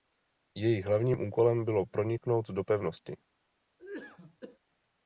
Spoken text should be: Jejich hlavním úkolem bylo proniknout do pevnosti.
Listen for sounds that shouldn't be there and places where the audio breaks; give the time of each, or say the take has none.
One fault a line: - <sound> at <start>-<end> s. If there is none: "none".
- cough at 3.8-4.6 s